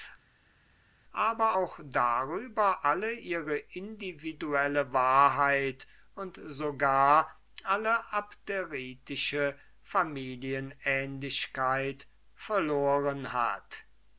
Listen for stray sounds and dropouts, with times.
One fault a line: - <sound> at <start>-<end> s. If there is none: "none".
none